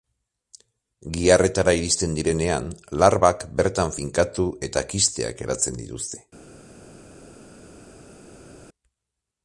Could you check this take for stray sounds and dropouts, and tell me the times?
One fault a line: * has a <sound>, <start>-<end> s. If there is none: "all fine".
all fine